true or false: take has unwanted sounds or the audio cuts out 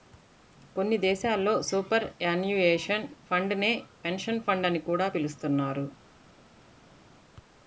false